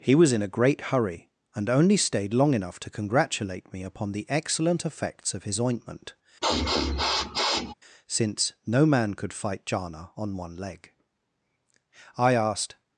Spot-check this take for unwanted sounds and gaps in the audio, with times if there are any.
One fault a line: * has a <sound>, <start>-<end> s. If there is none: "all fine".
* has a sniff, 6.4-7.7 s